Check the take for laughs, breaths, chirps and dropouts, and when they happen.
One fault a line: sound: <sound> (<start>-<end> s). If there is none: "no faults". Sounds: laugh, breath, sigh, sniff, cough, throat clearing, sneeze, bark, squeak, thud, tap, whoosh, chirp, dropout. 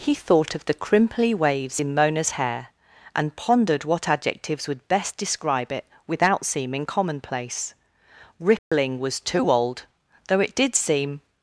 sound: dropout (8.6-8.7 s)